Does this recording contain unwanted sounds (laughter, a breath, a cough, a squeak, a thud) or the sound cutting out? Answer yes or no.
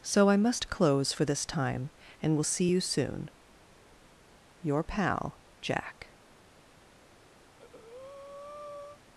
yes